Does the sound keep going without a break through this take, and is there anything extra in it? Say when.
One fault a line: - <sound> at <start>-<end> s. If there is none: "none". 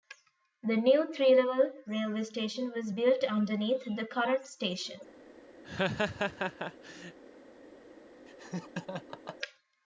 - laugh at 5.6-7.2 s
- laugh at 8.3-9.4 s